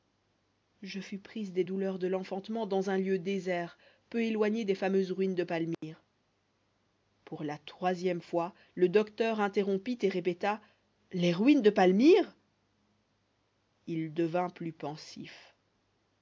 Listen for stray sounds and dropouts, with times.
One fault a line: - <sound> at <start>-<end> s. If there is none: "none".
- dropout at 5.7-5.8 s